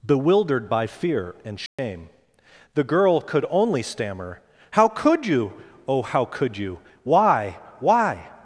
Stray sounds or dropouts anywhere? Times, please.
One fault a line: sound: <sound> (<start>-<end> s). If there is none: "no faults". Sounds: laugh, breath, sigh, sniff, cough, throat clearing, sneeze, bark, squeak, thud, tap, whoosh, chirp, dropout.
sound: dropout (1.7-1.8 s)